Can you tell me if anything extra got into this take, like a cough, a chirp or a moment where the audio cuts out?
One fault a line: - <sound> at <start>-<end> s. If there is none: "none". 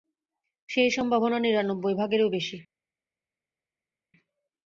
none